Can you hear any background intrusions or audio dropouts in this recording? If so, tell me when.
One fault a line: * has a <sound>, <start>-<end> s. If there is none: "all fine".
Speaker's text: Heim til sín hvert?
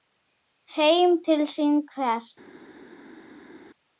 all fine